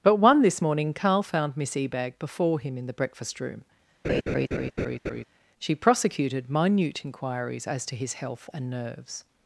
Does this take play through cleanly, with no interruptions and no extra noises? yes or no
no